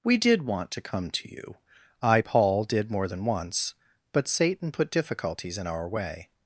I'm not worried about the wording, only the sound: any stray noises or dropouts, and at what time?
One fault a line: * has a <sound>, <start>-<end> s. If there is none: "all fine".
all fine